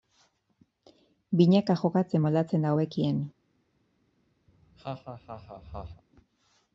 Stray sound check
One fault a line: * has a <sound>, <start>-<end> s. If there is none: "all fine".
* has a laugh, 4.5-6.0 s